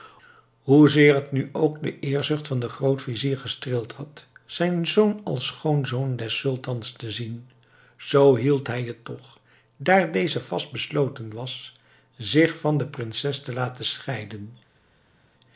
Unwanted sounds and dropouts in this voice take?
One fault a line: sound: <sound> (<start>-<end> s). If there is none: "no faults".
no faults